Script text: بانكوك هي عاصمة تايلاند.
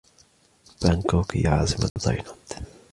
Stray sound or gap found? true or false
true